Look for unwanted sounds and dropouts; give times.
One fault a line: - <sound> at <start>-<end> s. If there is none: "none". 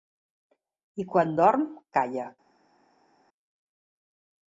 none